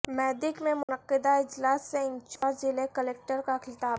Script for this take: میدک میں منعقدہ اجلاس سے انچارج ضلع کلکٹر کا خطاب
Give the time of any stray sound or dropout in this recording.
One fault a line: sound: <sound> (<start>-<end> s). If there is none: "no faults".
sound: dropout (0.8-0.9 s)
sound: dropout (2.4-2.4 s)